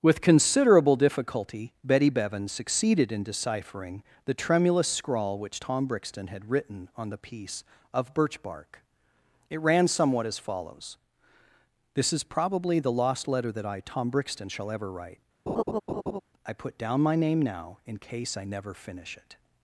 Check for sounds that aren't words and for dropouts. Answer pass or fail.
fail